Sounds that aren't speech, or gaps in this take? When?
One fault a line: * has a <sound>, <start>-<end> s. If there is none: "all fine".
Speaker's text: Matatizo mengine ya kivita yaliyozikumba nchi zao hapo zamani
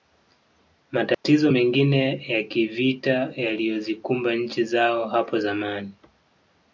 * has a dropout, 1.1-1.2 s